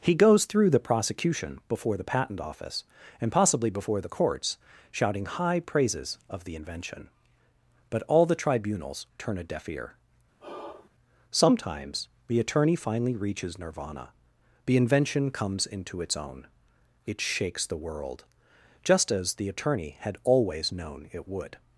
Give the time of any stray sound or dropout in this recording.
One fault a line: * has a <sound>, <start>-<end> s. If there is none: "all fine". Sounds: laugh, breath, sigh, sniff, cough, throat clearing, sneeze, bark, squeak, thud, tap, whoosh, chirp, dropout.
* has a sigh, 10.4-10.9 s